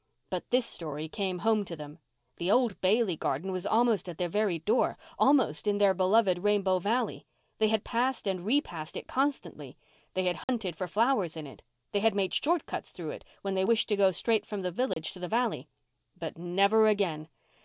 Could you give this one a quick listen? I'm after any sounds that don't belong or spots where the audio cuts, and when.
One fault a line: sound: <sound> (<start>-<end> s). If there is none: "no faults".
sound: dropout (10.4-10.5 s)
sound: dropout (14.9-15.0 s)